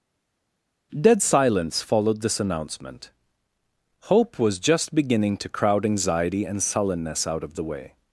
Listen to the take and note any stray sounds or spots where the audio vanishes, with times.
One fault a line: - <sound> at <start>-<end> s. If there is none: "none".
none